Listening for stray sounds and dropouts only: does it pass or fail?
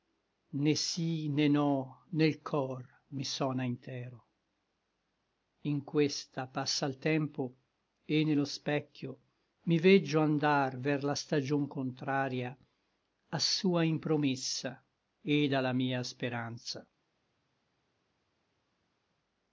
pass